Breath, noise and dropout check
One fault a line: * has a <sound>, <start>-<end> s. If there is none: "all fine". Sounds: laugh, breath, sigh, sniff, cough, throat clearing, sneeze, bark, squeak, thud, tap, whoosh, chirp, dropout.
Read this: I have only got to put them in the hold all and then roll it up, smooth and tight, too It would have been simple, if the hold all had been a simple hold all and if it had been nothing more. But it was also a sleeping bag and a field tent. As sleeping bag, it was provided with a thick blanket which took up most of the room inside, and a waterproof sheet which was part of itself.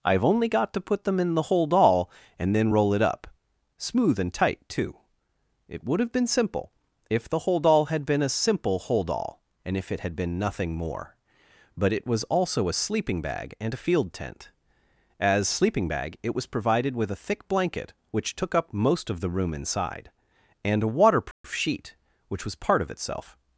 * has a dropout, 21.3-21.4 s